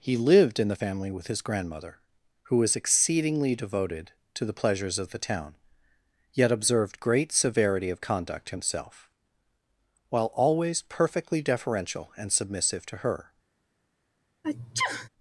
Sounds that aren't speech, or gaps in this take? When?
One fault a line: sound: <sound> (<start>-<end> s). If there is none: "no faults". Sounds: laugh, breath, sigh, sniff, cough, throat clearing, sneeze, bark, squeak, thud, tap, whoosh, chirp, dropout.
sound: sneeze (14.4-15.1 s)